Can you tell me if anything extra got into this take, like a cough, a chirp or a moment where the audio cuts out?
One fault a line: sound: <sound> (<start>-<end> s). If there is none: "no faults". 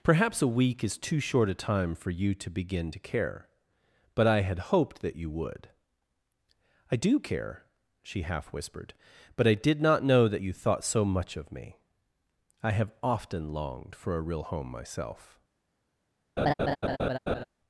sound: laugh (16.4-17.4 s)